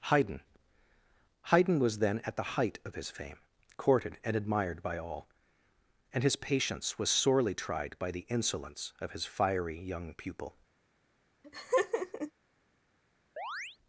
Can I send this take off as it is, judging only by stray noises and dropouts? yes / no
no